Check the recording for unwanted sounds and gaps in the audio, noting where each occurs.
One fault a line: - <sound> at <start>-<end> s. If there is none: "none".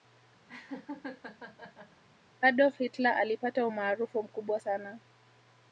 - laugh at 0.5-2.0 s